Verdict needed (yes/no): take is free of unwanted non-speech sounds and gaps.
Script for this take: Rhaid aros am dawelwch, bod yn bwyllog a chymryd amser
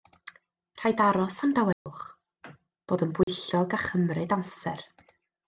no